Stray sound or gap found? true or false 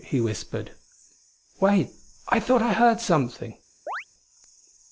true